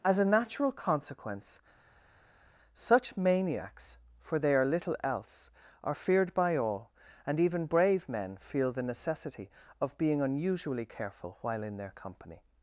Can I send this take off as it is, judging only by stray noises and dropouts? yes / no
yes